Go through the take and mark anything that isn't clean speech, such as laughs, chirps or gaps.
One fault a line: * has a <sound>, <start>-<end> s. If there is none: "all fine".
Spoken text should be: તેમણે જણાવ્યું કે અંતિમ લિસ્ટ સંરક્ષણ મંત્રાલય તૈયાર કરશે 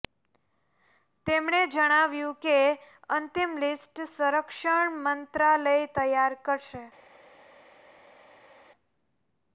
all fine